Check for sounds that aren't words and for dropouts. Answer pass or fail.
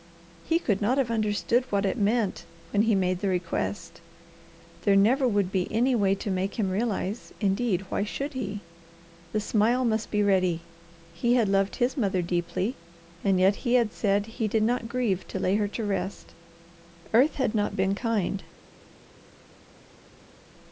pass